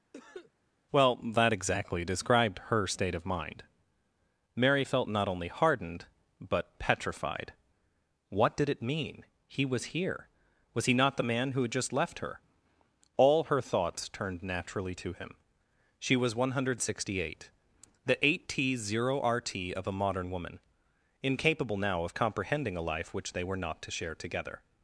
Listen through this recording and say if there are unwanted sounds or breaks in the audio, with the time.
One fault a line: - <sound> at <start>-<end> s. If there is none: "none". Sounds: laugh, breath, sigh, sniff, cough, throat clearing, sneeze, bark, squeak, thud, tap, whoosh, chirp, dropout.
- cough at 0.1-0.5 s